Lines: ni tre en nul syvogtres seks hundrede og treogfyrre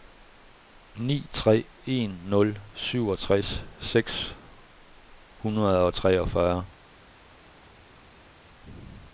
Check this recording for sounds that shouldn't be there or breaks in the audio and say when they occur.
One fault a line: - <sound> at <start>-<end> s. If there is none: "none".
none